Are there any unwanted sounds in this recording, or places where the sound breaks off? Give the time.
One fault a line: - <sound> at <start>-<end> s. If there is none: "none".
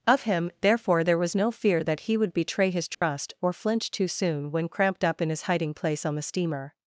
- dropout at 2.9-3.0 s